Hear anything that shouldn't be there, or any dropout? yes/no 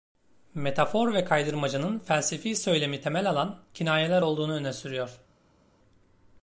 no